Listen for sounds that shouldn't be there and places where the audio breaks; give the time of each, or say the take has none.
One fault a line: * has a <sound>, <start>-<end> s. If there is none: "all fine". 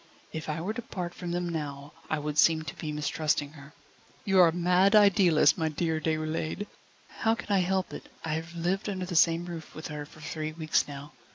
all fine